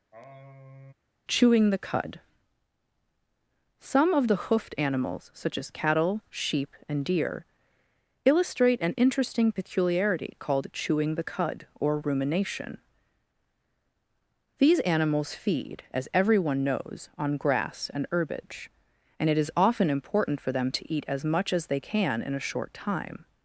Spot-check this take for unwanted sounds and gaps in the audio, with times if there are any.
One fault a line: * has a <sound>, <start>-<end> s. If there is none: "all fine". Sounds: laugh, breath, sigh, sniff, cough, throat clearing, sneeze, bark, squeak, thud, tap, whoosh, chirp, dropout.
* has a sigh, 0.1-0.9 s